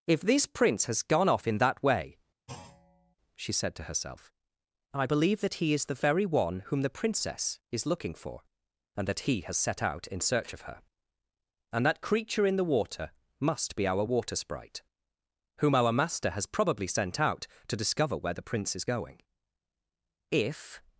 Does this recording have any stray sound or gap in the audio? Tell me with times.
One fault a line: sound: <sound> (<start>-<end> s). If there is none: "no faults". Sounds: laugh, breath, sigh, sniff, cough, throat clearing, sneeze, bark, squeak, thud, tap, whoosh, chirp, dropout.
sound: thud (2.5-3.2 s)